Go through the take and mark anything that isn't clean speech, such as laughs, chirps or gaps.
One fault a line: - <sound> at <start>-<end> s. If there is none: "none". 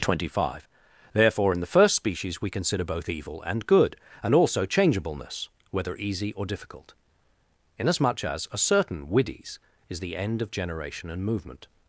none